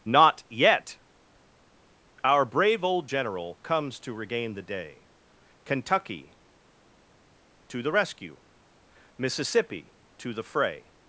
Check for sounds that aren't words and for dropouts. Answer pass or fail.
pass